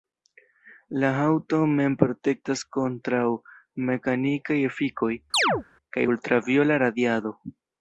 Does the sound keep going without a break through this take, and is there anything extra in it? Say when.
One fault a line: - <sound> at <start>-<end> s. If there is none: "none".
- chirp at 5.3-5.6 s